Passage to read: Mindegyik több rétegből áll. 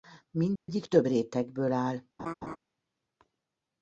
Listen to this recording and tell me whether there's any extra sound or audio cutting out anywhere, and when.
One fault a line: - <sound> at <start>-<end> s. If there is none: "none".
- dropout at 0.6-0.7 s
- laugh at 2.2-2.6 s